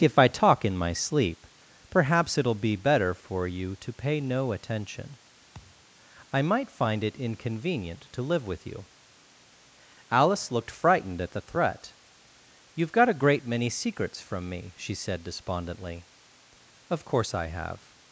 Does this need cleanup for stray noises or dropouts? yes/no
yes